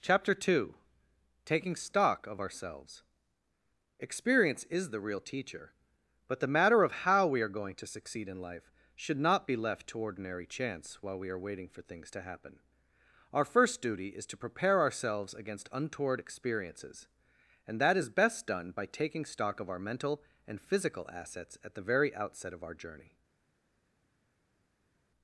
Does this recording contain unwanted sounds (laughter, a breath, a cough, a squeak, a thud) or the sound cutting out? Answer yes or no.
no